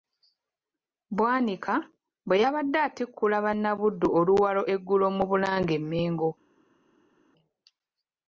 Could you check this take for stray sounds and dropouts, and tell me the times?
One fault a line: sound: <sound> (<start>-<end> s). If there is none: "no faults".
no faults